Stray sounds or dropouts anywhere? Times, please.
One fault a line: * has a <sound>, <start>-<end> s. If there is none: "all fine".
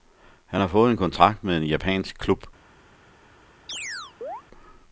* has a chirp, 3.7-4.4 s